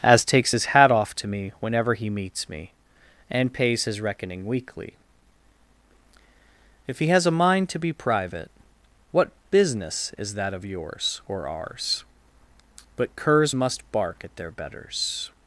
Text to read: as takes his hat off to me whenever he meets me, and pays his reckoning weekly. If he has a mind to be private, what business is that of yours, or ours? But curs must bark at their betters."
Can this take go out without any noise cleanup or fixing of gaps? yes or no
yes